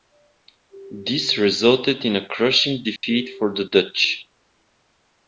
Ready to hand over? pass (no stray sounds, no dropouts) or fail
fail